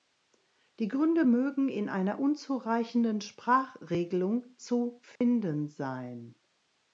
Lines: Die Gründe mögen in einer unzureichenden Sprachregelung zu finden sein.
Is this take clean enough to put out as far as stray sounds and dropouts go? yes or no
no